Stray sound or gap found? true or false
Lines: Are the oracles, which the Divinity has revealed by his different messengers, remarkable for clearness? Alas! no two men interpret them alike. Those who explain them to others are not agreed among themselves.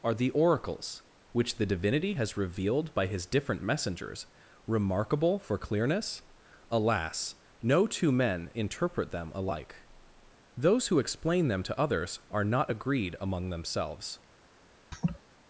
true